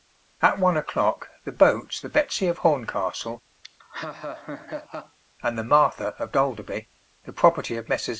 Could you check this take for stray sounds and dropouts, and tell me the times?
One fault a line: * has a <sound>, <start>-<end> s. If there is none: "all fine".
* has a laugh, 3.6-5.2 s